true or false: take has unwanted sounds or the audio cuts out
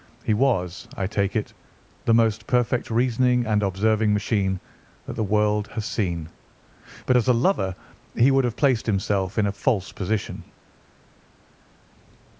false